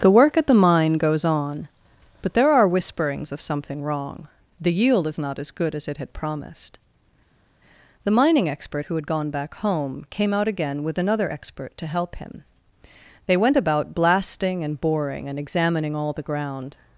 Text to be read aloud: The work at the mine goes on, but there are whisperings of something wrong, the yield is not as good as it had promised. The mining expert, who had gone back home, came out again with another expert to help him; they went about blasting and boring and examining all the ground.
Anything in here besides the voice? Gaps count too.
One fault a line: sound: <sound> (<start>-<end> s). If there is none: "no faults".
no faults